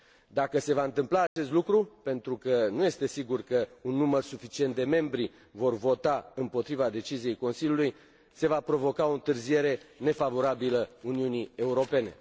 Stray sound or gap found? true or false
true